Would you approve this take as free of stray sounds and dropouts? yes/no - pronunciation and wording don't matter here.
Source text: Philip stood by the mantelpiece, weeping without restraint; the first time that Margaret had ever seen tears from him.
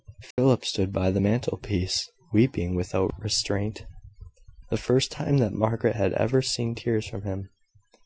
no